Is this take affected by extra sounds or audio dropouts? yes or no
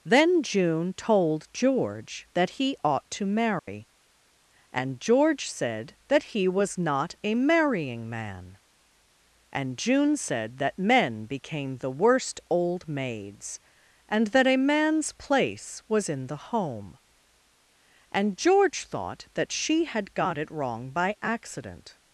yes